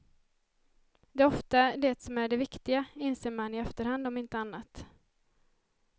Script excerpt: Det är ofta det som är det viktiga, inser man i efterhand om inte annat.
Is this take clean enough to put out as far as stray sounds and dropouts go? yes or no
yes